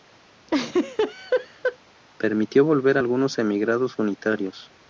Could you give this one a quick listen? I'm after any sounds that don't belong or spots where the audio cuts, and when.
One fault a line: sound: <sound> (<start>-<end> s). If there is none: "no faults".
sound: laugh (0.5-1.8 s)